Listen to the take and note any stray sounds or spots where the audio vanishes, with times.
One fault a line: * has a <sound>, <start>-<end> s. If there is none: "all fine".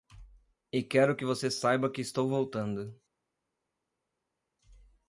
all fine